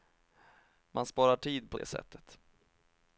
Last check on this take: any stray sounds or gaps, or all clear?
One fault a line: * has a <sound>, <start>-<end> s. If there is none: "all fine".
all fine